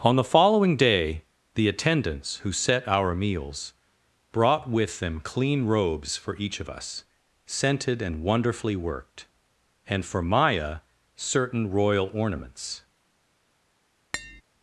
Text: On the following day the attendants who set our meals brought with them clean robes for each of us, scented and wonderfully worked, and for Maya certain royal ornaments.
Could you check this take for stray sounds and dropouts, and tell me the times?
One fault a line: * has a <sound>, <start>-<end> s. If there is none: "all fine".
* has a tap, 14.1-14.4 s